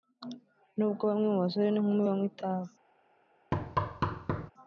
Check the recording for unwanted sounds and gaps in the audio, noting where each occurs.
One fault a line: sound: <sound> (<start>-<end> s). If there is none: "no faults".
sound: thud (3.5-4.5 s)